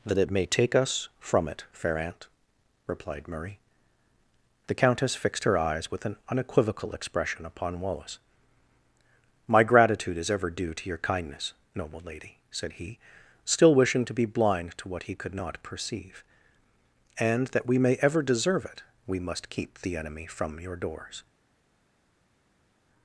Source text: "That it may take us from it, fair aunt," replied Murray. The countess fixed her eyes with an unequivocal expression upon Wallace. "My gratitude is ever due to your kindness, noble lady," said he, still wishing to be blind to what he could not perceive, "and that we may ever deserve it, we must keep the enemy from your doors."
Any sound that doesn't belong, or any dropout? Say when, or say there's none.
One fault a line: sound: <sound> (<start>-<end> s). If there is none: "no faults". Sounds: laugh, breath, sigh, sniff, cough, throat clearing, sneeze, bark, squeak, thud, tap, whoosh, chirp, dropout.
no faults